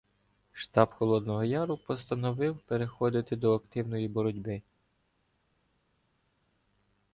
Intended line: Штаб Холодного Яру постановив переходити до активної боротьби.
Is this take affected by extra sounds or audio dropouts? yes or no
no